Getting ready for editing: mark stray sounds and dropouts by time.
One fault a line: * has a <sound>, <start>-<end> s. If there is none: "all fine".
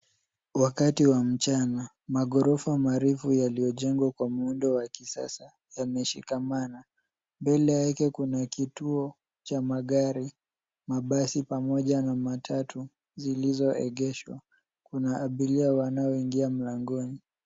all fine